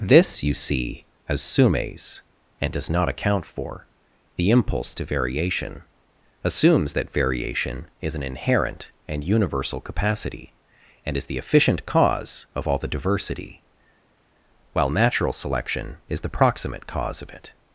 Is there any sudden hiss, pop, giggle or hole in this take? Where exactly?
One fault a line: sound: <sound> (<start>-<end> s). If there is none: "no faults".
no faults